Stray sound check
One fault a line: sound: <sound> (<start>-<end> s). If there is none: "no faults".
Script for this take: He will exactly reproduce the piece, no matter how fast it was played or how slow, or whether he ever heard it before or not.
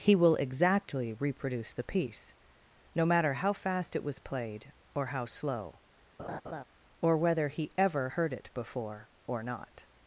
sound: laugh (6.2-6.6 s)